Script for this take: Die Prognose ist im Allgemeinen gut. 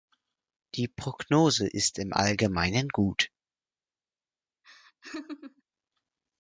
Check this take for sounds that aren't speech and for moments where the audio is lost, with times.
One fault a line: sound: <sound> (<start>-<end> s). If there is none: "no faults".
sound: laugh (4.6-5.6 s)